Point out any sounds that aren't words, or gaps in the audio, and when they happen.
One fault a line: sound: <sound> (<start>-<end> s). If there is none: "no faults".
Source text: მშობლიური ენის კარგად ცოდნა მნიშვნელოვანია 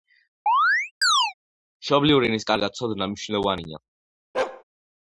sound: chirp (0.5-1.3 s)
sound: bark (4.3-4.6 s)